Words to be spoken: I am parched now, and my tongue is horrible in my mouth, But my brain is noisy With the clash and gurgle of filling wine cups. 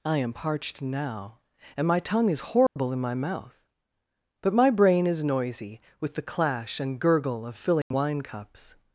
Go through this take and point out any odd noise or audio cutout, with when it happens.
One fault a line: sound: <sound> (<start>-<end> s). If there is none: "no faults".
sound: dropout (2.7-2.8 s)
sound: dropout (7.8-7.9 s)